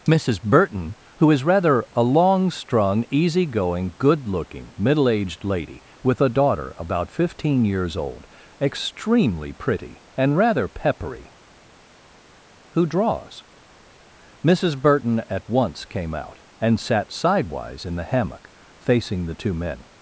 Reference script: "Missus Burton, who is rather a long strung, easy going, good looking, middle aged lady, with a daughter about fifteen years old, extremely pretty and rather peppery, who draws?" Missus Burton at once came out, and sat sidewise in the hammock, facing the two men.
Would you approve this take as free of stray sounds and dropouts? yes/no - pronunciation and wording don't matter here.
yes